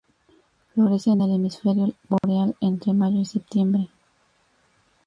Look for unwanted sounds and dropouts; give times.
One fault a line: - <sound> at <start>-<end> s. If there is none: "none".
- dropout at 2.2-2.2 s